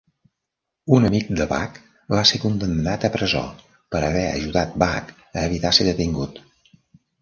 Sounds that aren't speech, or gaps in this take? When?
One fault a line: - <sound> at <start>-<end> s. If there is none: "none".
none